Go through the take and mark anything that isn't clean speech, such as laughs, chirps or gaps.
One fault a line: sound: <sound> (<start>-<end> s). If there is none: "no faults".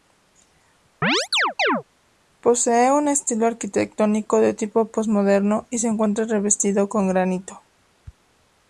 sound: chirp (1.0-1.8 s)